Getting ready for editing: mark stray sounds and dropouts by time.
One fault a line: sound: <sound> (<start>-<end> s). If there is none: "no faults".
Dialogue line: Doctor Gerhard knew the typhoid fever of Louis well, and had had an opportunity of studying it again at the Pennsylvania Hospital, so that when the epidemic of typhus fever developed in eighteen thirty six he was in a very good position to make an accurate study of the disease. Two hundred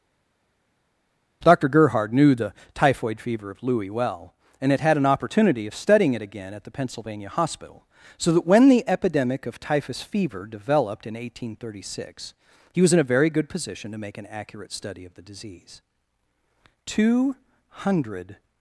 no faults